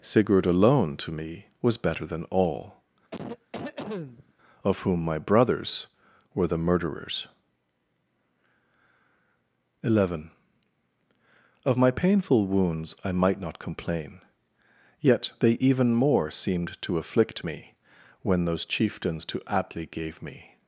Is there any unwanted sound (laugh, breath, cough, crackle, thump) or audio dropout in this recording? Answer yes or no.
yes